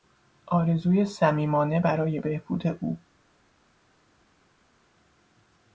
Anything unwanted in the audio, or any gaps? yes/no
no